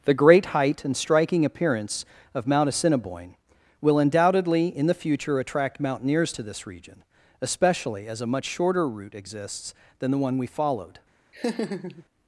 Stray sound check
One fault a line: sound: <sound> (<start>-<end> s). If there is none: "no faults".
sound: laugh (11.3-12.0 s)